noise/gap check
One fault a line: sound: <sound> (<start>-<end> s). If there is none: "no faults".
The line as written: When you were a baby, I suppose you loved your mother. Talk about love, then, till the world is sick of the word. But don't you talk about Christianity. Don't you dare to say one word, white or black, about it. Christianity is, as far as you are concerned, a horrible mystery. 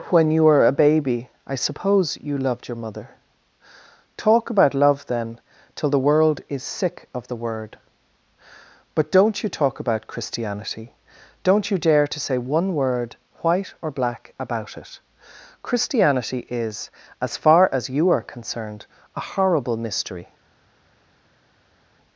no faults